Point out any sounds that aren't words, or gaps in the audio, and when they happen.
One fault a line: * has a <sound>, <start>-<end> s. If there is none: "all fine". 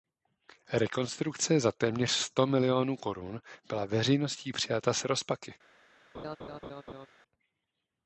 * has a laugh, 6.1-7.1 s